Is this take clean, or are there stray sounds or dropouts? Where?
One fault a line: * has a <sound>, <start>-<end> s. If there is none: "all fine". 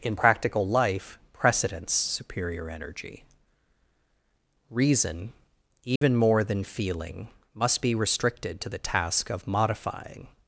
* has a dropout, 6.0-6.0 s